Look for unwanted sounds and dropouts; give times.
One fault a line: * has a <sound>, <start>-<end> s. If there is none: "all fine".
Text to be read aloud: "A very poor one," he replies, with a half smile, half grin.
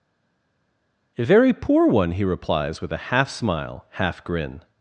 all fine